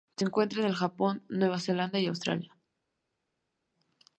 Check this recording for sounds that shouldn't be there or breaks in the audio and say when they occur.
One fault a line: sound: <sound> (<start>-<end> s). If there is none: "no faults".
no faults